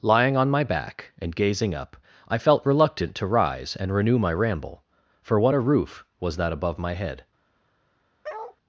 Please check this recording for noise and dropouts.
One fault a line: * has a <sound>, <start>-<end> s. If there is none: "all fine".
* has a bark, 8.2-8.6 s